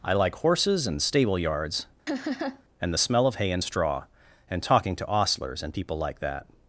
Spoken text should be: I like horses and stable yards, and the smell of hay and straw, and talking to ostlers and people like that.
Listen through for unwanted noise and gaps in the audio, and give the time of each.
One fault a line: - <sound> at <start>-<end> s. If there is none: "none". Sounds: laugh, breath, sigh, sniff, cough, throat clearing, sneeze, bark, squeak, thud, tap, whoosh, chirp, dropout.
- laugh at 2.1-2.6 s